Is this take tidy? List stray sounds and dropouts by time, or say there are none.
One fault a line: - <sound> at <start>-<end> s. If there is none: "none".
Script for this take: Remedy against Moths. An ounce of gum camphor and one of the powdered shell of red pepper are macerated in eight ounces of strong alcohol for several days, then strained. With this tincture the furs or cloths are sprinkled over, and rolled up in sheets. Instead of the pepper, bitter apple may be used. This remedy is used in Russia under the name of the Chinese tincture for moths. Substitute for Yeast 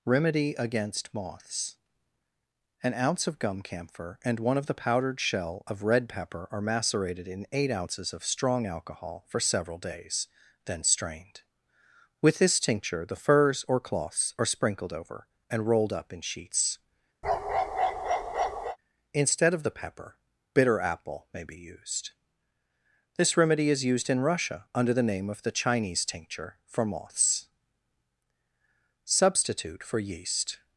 - bark at 17.2-18.8 s